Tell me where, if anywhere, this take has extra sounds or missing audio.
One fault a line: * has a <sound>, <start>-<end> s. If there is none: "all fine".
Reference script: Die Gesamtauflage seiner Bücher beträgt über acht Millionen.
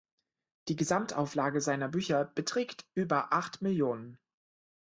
all fine